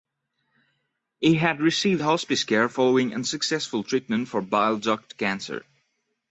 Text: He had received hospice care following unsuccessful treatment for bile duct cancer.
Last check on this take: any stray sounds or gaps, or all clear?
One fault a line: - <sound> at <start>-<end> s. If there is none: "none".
none